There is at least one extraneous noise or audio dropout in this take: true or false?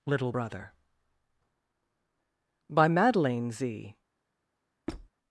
true